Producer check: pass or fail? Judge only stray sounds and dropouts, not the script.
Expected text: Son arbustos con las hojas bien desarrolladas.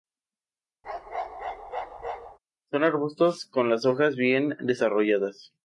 fail